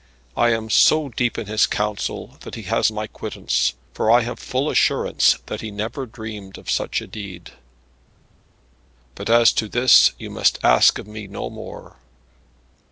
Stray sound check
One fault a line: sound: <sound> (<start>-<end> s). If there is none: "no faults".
no faults